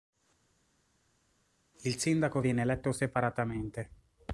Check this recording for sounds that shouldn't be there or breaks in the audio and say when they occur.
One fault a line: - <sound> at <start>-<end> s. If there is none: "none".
none